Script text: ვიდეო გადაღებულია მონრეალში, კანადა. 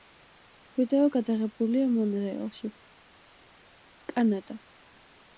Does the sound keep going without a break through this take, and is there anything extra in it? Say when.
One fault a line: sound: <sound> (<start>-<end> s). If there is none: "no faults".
no faults